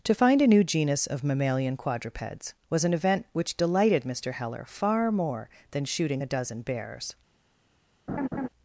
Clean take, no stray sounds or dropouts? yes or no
no